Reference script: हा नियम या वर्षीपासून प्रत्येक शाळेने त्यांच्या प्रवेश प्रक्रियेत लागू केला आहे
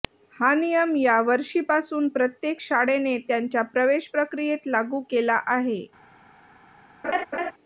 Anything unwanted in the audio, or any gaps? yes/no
yes